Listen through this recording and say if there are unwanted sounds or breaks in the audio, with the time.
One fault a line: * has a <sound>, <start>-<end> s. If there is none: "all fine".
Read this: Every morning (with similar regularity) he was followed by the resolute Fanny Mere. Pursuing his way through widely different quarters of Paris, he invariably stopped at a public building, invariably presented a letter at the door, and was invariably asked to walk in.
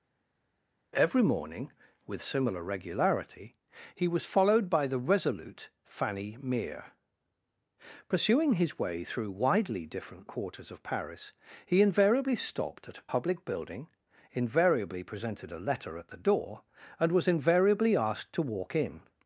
all fine